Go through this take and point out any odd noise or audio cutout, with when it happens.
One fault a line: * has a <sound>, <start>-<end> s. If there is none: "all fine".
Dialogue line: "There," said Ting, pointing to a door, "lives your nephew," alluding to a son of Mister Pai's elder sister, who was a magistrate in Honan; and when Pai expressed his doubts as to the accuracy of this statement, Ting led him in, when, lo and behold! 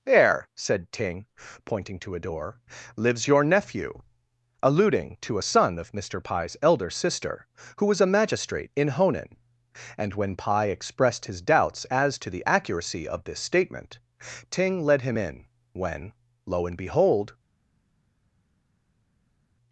all fine